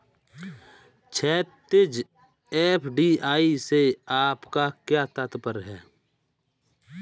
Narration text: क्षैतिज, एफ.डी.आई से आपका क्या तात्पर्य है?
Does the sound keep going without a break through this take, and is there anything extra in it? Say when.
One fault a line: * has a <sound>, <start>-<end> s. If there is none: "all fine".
all fine